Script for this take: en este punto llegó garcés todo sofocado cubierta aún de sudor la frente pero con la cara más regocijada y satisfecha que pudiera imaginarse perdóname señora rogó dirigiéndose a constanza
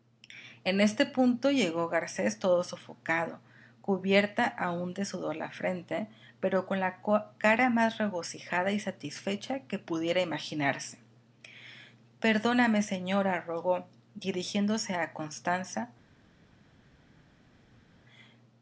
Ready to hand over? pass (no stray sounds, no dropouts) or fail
pass